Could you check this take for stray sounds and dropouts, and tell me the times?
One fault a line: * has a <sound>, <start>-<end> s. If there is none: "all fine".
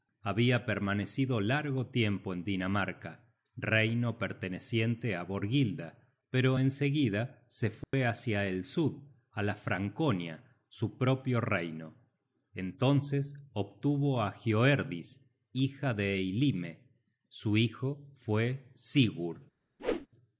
* has a dropout, 7.8-7.9 s
* has a whoosh, 19.8-20.1 s